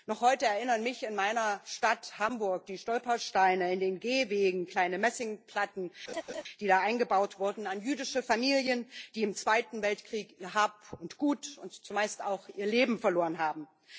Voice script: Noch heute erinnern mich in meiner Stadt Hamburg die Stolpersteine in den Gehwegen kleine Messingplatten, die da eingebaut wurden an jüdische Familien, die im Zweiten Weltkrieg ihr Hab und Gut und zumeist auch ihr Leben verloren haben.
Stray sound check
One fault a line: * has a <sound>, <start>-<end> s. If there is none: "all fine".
* has a laugh, 6.1-6.4 s